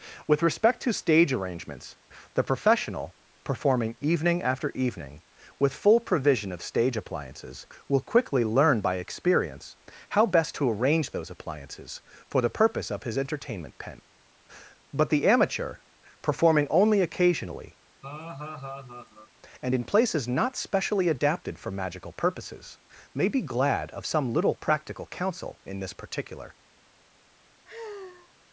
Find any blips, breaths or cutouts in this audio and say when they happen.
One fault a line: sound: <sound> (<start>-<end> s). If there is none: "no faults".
sound: laugh (18.0-19.3 s)
sound: sigh (27.6-28.3 s)